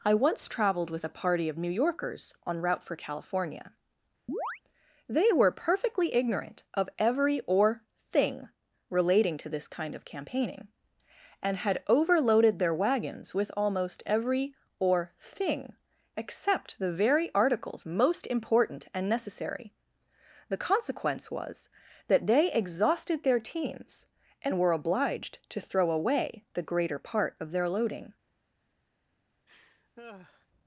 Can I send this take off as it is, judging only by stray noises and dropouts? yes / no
no